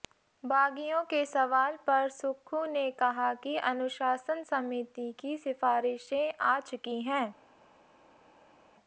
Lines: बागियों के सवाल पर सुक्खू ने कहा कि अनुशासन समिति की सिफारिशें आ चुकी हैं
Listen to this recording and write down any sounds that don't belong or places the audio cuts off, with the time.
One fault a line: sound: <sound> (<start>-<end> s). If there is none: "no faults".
no faults